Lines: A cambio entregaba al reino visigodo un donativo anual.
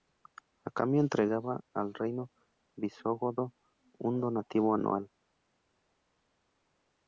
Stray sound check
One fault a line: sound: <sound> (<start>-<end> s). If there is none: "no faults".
no faults